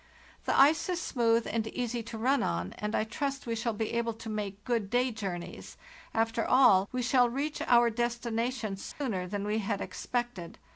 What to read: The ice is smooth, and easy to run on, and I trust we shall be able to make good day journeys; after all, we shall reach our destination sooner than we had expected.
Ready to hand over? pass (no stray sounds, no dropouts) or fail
fail